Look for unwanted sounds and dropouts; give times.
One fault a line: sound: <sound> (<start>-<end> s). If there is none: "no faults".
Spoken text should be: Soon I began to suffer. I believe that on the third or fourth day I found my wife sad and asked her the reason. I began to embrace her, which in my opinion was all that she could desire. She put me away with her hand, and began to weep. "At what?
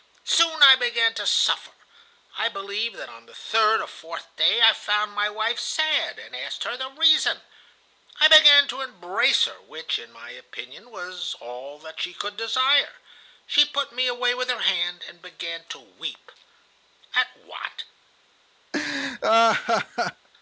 sound: laugh (18.7-20.3 s)